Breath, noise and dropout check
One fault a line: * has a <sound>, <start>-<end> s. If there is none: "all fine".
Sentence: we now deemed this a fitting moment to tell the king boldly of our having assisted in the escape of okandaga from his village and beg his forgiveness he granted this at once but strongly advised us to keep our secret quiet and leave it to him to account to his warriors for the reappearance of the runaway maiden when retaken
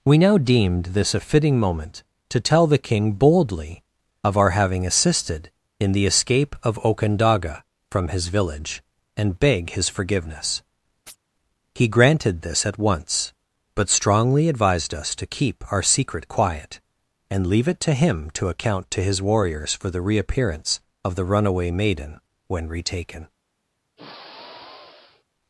* has a chirp, 11.1-11.2 s
* has a sigh, 24.0-25.2 s